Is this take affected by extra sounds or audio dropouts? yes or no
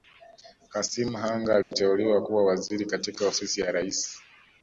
yes